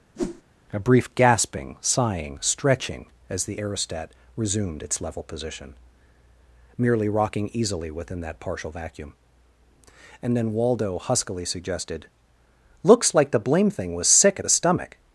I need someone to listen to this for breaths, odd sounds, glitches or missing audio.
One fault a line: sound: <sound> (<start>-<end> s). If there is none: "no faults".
sound: whoosh (0.2-0.4 s)